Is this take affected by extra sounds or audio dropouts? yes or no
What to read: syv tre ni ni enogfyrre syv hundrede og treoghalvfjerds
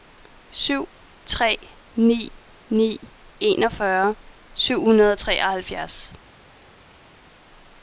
no